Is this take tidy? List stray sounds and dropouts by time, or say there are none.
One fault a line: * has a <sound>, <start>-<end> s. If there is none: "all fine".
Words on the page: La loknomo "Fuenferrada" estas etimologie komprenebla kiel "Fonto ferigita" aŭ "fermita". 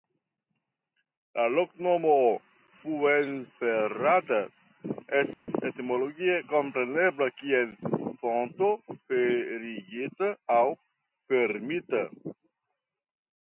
* has a dropout, 5.3-5.5 s